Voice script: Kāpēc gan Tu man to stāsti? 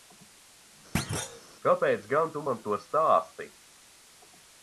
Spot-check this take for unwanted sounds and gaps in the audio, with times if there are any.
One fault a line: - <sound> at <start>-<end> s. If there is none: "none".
- thud at 0.9-1.4 s